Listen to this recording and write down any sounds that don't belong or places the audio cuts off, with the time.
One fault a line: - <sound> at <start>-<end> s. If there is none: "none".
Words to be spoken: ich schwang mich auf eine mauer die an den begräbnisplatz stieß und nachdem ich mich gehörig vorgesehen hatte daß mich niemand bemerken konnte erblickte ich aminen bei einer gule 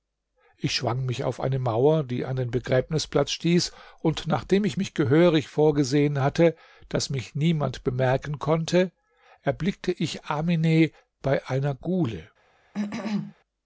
- cough at 12.7-13.3 s